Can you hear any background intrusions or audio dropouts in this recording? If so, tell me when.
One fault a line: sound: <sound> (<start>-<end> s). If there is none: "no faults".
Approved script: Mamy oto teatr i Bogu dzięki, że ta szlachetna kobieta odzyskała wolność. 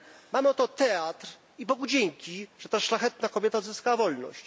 no faults